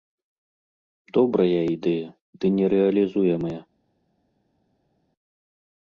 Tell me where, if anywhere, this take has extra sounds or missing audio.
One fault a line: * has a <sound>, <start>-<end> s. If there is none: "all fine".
all fine